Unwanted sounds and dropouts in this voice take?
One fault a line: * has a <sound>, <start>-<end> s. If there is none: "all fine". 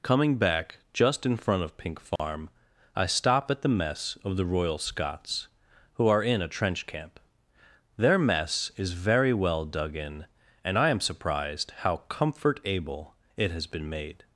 * has a dropout, 2.2-2.2 s